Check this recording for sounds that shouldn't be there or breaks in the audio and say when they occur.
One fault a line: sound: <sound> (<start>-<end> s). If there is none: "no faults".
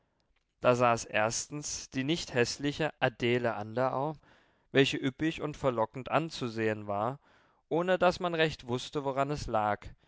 no faults